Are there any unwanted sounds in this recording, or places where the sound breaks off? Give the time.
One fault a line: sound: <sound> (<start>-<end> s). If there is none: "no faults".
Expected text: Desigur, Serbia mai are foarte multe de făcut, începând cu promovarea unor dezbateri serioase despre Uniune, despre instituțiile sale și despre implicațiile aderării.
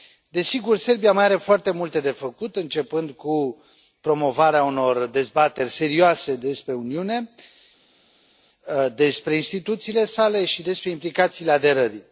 no faults